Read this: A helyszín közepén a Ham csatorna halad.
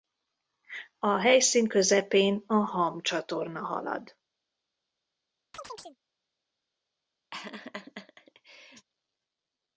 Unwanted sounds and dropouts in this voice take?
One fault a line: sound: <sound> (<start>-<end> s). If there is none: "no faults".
sound: chirp (5.5-6.0 s)
sound: laugh (7.3-8.9 s)